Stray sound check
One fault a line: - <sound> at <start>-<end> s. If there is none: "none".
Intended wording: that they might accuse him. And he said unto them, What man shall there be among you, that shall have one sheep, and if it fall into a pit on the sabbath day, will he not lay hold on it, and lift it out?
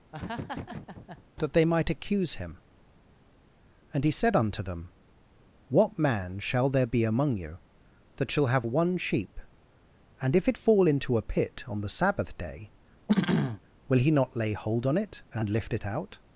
- laugh at 0.1-1.2 s
- throat clearing at 13.1-13.6 s